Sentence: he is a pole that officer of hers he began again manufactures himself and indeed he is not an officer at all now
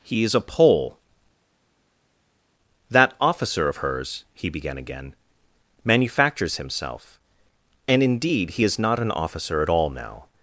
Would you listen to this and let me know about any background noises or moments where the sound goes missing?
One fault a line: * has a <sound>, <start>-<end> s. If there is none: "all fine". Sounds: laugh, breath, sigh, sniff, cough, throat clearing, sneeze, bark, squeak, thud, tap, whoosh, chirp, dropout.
all fine